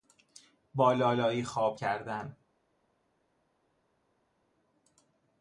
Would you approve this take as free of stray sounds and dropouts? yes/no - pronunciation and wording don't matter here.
yes